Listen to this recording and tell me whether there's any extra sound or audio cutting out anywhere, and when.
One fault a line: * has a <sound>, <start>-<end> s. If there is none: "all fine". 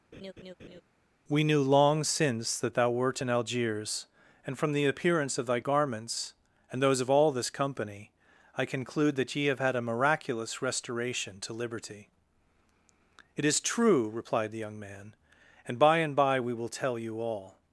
* has a laugh, 0.1-0.8 s